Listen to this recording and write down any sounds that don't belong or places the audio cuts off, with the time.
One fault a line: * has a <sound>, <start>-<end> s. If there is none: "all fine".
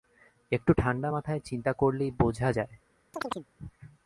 * has a chirp, 3.1-3.5 s